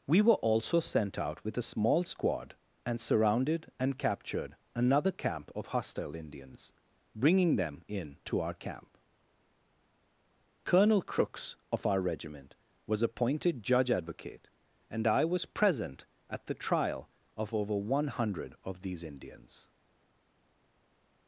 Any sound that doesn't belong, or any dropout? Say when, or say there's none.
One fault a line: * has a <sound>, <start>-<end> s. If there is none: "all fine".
all fine